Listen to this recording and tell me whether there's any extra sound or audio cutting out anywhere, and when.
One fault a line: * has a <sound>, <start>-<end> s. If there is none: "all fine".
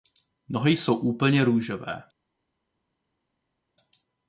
all fine